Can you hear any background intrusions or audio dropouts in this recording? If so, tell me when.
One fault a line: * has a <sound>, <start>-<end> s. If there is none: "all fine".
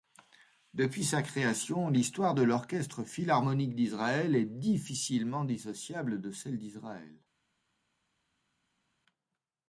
all fine